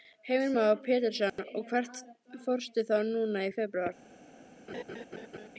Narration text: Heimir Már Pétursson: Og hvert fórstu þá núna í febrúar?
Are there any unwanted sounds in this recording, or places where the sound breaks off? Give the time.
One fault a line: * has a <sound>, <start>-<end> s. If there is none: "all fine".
* has a dropout, 1.3-1.4 s
* has a laugh, 4.7-5.5 s